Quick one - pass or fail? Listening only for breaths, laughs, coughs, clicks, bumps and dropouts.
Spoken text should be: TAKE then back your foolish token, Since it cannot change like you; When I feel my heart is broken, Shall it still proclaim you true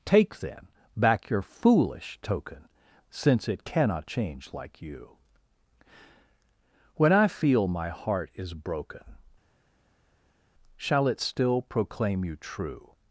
pass